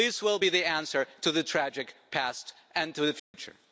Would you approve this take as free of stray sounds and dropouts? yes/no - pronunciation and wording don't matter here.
no